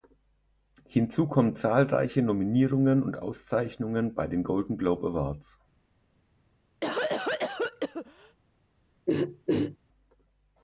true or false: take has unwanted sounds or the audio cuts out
true